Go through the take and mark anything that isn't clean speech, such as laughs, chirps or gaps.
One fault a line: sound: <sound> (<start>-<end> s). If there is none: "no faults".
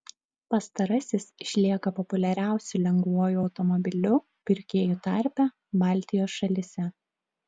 no faults